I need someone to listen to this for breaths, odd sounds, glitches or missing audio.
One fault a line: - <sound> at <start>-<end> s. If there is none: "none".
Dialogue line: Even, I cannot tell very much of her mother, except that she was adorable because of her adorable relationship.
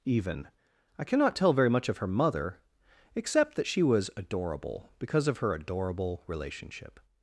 none